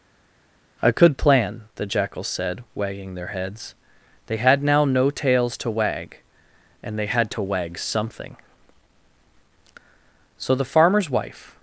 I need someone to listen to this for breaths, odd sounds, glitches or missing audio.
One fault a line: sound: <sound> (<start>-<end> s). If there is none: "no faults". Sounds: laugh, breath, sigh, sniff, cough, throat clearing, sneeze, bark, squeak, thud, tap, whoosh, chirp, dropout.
no faults